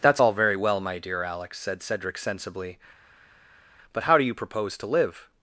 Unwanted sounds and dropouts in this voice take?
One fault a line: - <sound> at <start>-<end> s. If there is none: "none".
none